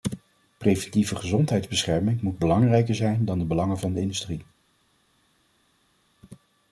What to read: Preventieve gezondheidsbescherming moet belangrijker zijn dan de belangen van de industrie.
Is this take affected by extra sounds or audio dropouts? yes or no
no